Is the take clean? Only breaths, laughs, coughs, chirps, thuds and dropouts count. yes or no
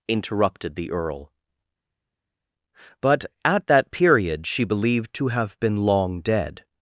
yes